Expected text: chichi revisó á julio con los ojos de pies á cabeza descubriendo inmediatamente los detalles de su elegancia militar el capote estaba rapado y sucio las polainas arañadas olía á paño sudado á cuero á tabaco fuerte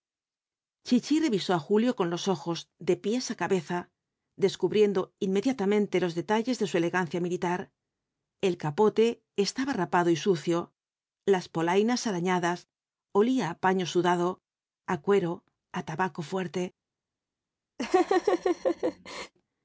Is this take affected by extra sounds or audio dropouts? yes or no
yes